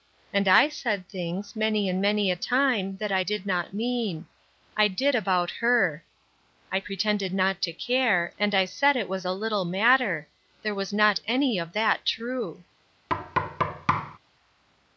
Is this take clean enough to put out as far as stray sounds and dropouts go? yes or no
no